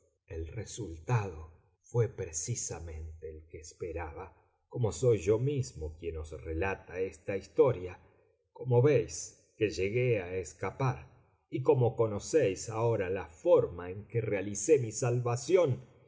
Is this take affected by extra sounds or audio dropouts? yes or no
no